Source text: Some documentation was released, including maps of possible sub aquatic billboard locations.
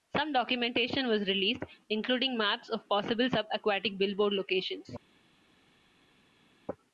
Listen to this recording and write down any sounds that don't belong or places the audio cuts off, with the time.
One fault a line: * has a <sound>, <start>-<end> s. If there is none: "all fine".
all fine